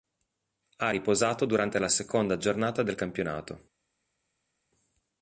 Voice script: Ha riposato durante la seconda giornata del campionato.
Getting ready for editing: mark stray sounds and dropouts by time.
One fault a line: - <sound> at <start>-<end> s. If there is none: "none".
none